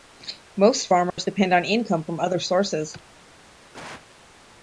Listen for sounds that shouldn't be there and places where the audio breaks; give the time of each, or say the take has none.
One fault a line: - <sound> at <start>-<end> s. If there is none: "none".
- dropout at 1.1-1.2 s
- cough at 3.7-4.1 s